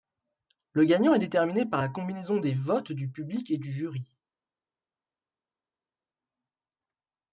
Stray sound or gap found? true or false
false